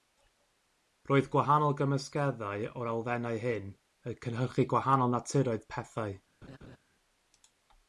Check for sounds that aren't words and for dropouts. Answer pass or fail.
fail